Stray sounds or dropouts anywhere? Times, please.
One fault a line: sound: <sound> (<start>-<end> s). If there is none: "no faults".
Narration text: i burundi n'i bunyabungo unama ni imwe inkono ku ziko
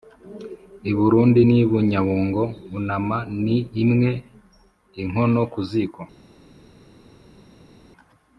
no faults